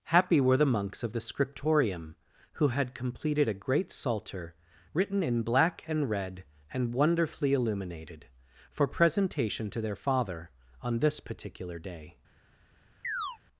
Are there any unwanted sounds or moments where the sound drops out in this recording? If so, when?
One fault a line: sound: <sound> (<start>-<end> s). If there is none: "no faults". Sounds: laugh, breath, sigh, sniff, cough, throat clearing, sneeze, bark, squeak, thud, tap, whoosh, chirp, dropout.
sound: chirp (13.0-13.4 s)